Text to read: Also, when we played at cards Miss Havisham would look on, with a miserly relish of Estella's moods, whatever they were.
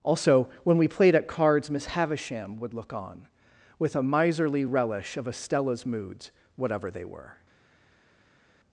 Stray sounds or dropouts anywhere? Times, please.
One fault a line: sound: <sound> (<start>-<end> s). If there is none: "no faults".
no faults